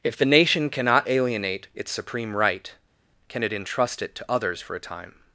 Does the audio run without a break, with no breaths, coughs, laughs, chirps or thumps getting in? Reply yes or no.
yes